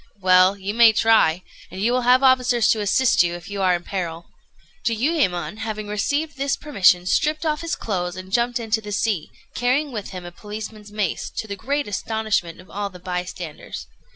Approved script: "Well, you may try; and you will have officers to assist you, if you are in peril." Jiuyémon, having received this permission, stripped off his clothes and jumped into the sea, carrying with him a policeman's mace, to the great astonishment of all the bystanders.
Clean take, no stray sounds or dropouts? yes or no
yes